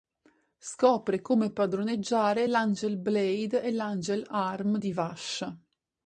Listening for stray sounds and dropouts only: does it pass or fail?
pass